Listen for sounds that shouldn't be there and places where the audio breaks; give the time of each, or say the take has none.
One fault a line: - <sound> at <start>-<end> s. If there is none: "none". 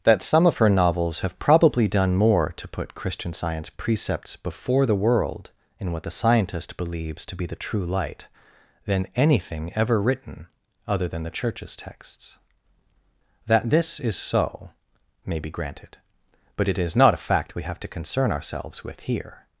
none